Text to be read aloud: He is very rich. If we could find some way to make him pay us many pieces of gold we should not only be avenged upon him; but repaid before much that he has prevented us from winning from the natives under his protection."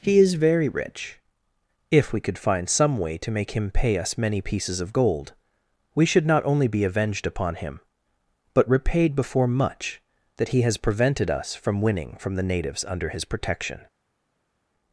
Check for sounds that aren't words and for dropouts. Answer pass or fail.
pass